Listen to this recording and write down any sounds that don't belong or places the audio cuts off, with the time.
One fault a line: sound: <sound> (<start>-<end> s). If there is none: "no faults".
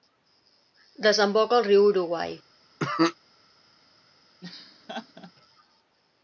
sound: cough (2.8-3.2 s)
sound: laugh (4.4-5.3 s)